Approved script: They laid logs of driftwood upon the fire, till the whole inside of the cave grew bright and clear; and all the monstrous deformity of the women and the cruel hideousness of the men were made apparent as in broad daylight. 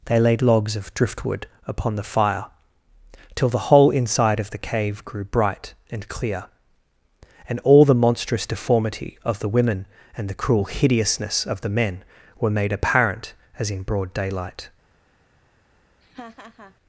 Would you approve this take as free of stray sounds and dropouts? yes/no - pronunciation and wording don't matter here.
no